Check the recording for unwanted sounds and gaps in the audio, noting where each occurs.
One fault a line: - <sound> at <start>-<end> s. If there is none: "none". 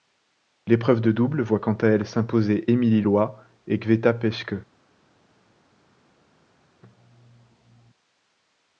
none